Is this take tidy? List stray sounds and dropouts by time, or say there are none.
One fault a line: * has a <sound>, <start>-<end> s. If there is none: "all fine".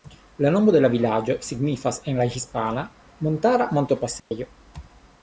* has a dropout, 4.2-4.3 s